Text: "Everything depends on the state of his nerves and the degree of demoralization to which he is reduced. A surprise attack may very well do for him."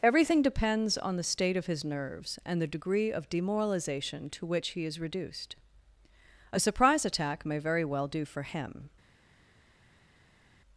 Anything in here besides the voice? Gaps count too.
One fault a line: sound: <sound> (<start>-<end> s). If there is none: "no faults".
no faults